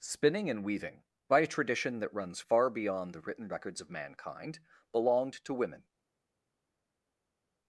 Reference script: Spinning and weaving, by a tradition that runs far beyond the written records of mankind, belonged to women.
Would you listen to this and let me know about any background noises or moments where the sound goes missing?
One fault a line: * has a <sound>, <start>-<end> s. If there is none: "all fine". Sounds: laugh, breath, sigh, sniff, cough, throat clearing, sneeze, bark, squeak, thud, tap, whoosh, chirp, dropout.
all fine